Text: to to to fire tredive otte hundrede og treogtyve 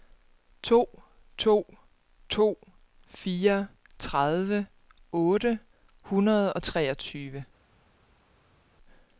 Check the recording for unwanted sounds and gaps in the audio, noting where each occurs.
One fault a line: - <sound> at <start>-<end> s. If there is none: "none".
none